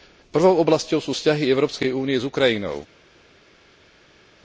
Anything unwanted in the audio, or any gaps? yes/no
no